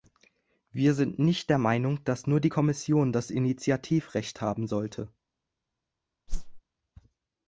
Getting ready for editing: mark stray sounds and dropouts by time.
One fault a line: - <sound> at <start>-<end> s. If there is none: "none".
- whoosh at 6.3-6.6 s